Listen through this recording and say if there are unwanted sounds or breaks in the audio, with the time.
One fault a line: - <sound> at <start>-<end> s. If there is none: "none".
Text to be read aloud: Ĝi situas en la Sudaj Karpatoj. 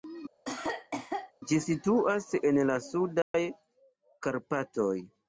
- cough at 0.5-1.3 s
- dropout at 3.2-3.3 s